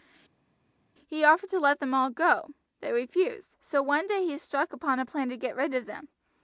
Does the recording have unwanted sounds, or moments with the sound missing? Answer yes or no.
no